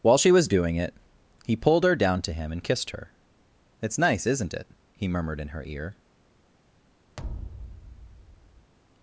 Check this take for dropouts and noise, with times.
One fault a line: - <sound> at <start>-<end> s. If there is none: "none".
- thud at 7.2-8.7 s